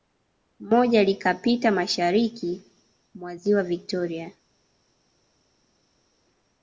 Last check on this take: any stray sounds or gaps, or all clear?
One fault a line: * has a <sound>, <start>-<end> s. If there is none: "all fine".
all fine